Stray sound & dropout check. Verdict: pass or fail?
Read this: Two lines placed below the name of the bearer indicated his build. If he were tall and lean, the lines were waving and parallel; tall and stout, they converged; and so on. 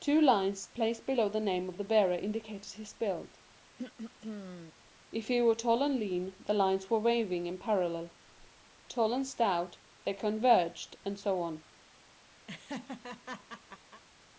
fail